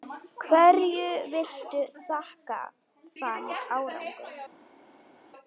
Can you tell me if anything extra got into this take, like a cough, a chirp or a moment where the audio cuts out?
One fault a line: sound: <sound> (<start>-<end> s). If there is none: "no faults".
no faults